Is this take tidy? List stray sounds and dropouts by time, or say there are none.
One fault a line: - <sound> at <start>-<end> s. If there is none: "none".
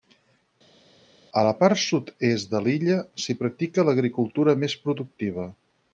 none